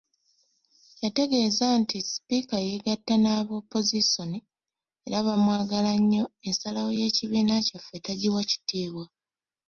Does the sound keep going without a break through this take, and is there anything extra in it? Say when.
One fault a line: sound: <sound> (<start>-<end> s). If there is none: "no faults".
no faults